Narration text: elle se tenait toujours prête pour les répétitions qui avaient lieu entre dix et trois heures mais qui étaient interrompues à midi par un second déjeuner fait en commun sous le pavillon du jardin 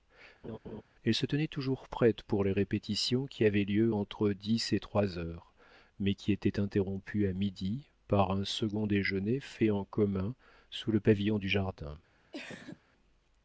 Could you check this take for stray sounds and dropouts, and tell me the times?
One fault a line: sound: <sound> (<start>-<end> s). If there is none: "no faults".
sound: laugh (0.4-0.8 s)
sound: cough (12.3-12.8 s)